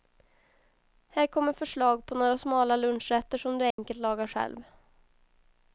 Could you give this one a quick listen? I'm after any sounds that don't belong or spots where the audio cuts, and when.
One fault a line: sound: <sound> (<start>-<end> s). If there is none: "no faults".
sound: dropout (3.7-3.8 s)